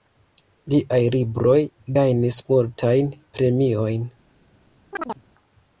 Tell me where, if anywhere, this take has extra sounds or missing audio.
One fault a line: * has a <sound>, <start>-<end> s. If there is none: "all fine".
* has a chirp, 4.9-5.2 s